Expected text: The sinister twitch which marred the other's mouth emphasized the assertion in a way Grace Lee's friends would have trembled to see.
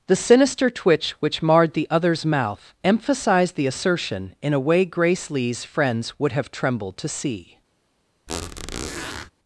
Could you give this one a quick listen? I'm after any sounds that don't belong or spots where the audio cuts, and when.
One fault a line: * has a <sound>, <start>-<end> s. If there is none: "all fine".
* has a squeak, 8.3-9.3 s